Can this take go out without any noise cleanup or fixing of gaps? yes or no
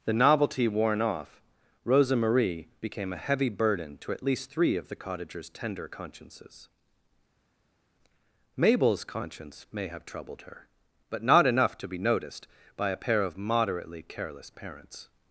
yes